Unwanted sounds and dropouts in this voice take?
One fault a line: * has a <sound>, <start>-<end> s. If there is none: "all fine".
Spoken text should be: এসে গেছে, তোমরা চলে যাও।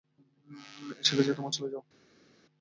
all fine